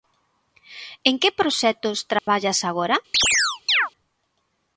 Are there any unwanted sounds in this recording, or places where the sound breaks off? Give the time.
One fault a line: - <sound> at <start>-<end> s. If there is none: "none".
- dropout at 2.2-2.3 s
- chirp at 3.1-3.9 s